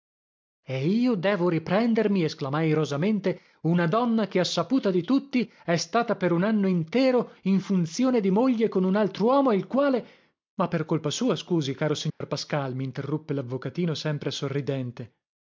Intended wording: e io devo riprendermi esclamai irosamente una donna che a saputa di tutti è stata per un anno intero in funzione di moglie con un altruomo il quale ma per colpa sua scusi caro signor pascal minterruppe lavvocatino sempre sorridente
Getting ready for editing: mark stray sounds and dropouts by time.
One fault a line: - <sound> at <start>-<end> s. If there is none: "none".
- dropout at 12.1-12.2 s